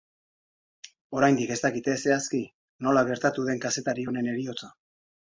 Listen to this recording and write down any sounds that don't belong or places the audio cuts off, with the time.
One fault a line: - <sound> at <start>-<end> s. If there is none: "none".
none